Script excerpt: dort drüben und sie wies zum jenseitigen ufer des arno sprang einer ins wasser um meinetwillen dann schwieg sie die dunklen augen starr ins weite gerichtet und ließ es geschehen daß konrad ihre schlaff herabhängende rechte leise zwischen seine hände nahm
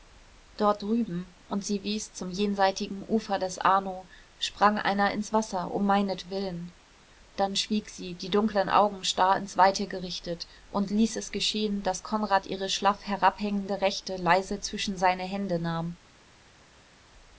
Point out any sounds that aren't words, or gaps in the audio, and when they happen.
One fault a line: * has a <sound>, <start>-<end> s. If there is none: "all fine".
all fine